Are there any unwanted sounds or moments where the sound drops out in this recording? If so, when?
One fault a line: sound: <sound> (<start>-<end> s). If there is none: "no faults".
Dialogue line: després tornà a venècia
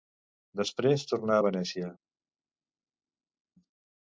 no faults